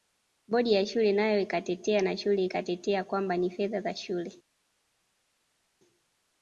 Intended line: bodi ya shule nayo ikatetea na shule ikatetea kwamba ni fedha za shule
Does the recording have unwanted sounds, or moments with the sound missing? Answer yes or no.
no